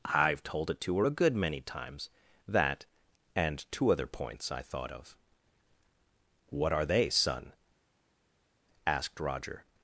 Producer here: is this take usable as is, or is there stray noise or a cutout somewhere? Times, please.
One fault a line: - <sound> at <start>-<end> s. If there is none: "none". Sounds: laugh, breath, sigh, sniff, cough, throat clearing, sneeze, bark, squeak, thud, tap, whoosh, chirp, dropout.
none